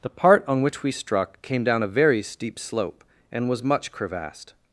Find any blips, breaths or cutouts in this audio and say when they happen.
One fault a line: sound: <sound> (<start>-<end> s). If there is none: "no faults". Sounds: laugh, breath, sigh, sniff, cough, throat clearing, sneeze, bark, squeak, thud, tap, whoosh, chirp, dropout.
no faults